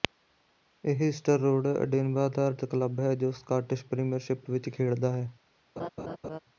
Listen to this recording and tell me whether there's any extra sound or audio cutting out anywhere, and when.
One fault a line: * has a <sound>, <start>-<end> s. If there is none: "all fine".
* has a laugh, 5.8-6.4 s